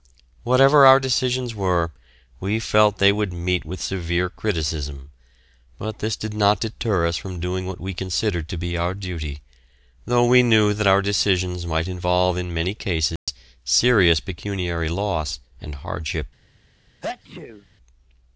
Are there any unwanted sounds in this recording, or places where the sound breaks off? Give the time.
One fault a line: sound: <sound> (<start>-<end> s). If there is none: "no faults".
sound: dropout (13.2-13.3 s)
sound: sneeze (17.0-17.7 s)